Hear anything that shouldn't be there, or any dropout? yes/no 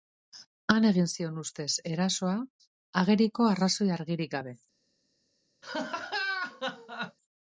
yes